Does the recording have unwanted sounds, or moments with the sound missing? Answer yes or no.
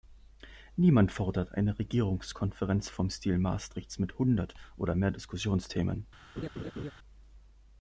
yes